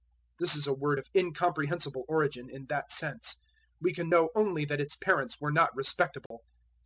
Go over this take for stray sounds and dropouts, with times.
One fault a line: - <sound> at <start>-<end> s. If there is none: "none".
- dropout at 6.3-6.3 s